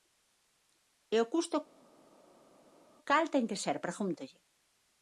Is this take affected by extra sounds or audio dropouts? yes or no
no